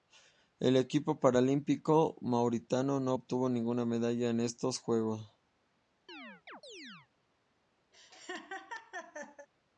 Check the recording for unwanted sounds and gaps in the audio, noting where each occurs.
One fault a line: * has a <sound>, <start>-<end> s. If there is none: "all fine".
* has a chirp, 6.1-7.1 s
* has a laugh, 7.9-9.5 s